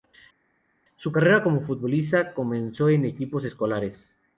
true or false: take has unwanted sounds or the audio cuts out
false